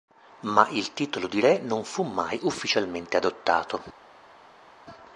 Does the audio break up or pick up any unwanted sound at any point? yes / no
no